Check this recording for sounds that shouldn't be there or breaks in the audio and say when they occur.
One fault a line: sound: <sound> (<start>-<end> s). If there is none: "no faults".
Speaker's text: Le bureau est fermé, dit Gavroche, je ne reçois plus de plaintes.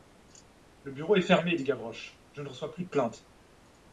no faults